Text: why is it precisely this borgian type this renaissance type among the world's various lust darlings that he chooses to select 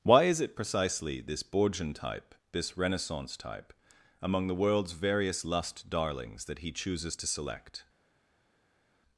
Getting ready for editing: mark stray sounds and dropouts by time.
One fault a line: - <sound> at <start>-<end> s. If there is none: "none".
none